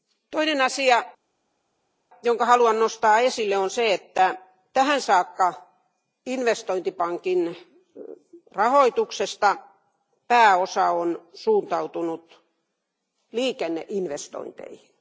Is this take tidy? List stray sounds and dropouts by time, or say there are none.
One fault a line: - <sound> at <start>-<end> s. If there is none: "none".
none